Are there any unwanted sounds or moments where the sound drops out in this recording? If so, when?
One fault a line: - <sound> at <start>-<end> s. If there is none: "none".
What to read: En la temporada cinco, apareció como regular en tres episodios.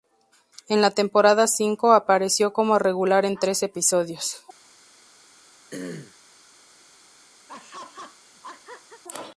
- throat clearing at 5.7-6.2 s
- laugh at 7.5-9.0 s